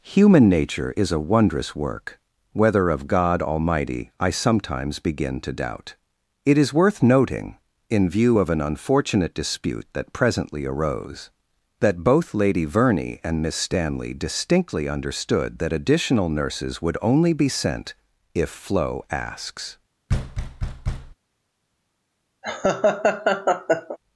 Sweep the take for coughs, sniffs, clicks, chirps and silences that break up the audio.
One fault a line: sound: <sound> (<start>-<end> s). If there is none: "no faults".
sound: thud (20.1-21.1 s)
sound: laugh (22.4-24.0 s)